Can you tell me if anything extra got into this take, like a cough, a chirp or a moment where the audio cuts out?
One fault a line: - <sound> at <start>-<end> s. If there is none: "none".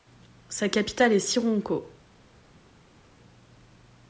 none